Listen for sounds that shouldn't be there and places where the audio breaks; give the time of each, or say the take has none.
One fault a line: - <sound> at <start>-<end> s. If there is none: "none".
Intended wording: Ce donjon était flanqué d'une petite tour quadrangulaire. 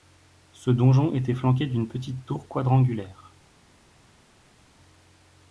none